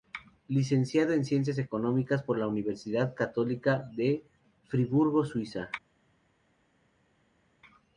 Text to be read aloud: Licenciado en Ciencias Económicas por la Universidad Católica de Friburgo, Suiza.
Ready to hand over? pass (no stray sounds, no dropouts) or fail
pass